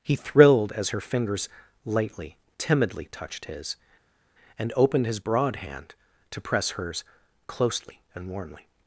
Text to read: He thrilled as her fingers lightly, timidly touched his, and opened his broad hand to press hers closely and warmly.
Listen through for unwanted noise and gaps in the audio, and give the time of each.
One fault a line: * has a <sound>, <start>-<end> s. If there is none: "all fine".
all fine